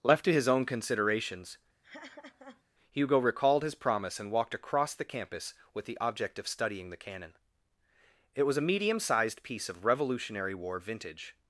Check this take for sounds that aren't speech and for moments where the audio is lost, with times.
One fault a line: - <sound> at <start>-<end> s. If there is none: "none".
- laugh at 1.8-2.6 s